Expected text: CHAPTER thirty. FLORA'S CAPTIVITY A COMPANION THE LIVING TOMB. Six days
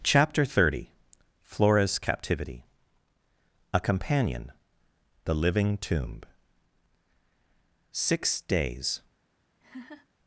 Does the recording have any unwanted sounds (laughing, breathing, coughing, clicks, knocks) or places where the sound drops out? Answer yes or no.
yes